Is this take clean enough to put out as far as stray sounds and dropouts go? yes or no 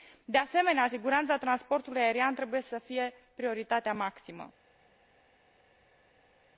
yes